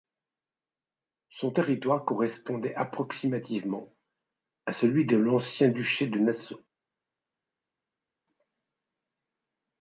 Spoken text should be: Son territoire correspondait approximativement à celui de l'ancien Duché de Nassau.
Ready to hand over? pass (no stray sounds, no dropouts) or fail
pass